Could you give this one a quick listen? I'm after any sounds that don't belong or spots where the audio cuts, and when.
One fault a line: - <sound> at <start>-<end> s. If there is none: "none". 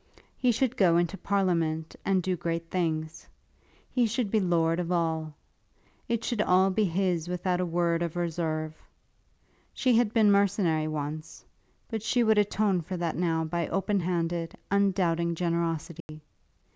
- dropout at 16.0-16.1 s